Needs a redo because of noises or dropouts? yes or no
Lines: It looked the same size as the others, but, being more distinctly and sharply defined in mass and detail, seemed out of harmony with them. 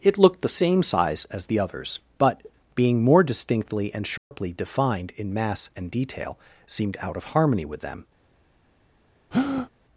yes